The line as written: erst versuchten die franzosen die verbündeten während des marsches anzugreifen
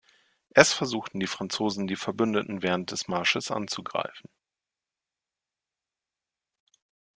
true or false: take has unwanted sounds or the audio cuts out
false